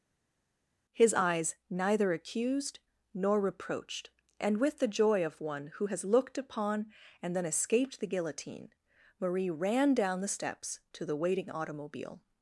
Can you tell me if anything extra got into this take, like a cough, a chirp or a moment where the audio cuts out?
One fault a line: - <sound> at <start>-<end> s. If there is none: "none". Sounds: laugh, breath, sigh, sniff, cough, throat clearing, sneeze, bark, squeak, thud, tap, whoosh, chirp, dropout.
none